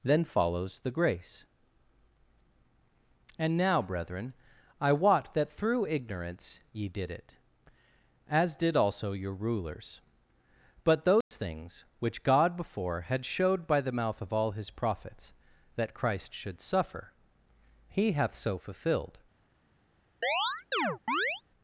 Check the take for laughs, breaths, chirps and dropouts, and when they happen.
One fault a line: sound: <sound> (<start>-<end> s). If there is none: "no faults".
sound: dropout (11.2-11.3 s)
sound: chirp (20.2-21.4 s)